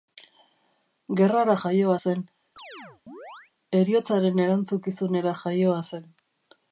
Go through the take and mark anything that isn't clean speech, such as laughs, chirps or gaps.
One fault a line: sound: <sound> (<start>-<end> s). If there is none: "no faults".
sound: chirp (2.6-3.5 s)